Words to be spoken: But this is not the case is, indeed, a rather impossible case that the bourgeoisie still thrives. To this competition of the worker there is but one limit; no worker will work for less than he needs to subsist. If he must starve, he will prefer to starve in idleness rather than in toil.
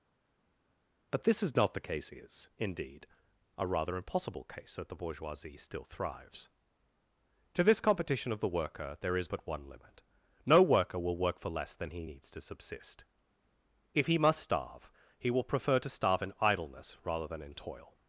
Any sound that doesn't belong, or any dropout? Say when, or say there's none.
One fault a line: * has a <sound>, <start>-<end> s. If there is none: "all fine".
all fine